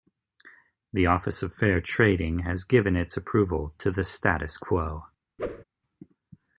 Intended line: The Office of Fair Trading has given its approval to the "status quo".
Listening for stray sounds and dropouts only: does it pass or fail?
fail